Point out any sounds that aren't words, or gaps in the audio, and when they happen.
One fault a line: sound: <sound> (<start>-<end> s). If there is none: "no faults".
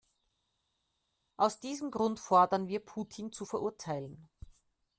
no faults